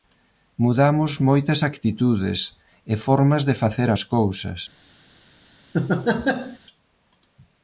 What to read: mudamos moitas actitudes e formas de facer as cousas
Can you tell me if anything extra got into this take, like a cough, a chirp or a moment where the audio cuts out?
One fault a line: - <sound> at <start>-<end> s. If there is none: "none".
- laugh at 5.7-6.6 s